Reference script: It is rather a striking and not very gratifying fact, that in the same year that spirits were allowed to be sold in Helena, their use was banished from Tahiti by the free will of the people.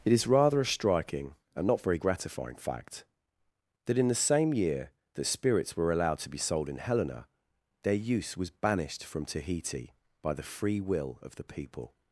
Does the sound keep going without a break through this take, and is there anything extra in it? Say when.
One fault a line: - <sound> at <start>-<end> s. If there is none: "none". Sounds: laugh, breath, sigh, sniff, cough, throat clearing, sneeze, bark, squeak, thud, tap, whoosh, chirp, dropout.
none